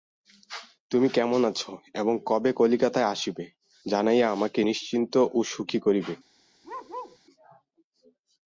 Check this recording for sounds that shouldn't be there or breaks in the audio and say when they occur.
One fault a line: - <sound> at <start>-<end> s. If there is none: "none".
- bark at 6.6-7.2 s